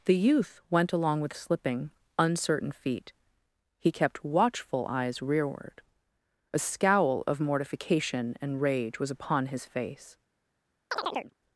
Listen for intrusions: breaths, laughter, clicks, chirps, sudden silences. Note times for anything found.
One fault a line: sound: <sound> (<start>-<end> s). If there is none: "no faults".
sound: chirp (10.9-11.3 s)